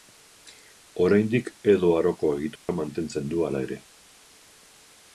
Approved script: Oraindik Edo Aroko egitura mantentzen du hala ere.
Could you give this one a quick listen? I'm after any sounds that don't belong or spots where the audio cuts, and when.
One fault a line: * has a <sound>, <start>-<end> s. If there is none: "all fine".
* has a dropout, 2.6-2.7 s